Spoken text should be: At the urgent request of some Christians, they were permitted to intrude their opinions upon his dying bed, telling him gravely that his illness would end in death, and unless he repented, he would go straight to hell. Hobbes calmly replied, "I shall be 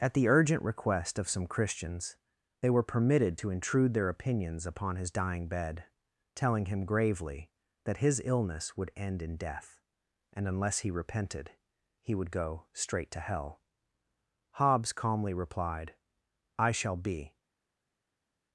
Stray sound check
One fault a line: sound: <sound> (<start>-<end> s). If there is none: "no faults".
no faults